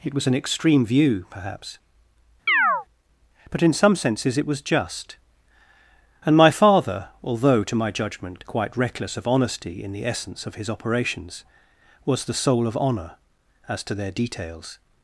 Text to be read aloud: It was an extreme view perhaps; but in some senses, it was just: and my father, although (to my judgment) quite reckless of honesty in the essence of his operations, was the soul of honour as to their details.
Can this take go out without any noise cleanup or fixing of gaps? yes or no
no